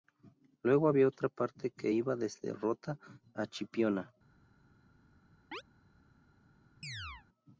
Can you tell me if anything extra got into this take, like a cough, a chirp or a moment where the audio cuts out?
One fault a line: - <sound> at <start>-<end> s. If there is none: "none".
- chirp at 5.5-5.6 s
- chirp at 6.8-7.3 s